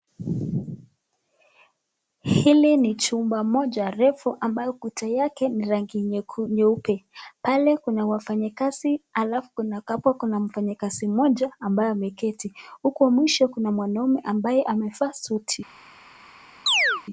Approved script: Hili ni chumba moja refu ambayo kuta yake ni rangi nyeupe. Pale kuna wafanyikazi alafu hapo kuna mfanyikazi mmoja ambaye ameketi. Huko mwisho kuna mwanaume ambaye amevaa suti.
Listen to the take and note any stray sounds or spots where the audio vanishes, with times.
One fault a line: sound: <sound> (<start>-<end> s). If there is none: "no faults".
sound: chirp (16.7-17.0 s)